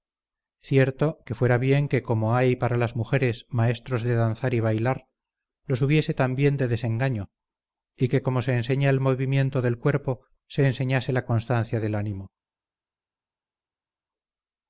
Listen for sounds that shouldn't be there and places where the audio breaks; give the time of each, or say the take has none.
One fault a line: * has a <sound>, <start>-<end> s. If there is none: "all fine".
all fine